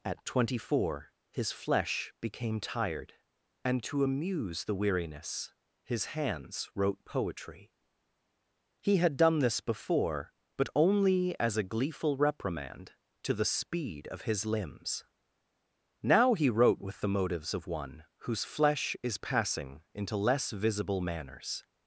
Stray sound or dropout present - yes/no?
no